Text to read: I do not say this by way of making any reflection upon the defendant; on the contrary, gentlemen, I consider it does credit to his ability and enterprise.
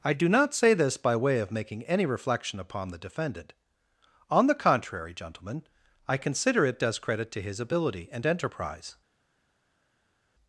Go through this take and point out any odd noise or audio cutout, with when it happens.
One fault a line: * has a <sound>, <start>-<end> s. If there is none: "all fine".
all fine